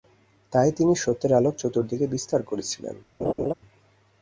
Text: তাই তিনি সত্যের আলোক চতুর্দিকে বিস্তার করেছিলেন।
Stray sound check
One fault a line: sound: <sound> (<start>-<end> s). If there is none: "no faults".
sound: laugh (3.2-3.5 s)